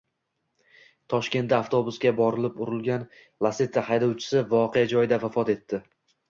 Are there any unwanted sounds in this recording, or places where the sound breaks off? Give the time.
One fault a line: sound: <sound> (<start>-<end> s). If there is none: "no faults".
no faults